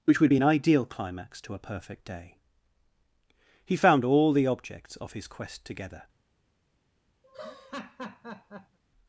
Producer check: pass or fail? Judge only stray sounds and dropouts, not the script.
fail